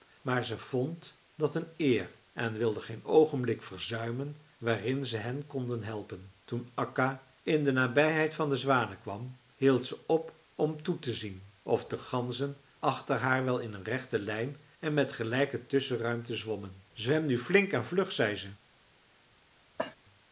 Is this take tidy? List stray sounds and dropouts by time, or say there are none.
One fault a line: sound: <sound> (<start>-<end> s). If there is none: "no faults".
sound: cough (19.8-20.0 s)